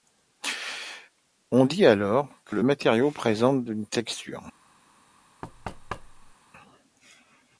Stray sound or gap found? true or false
true